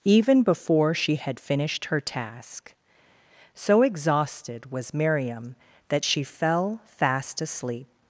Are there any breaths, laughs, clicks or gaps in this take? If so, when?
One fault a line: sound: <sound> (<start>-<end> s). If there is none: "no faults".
no faults